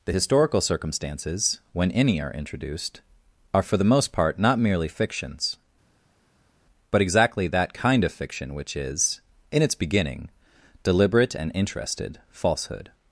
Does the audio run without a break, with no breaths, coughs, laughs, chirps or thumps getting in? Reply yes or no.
yes